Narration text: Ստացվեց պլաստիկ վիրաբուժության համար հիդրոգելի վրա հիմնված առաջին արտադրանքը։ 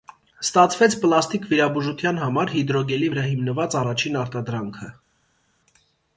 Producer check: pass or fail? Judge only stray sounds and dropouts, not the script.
pass